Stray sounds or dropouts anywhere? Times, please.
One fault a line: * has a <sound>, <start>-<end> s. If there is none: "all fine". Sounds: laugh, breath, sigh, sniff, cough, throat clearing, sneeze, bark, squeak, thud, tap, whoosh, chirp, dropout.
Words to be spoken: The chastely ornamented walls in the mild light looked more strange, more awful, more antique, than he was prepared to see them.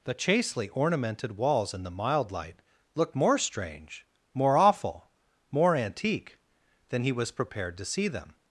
all fine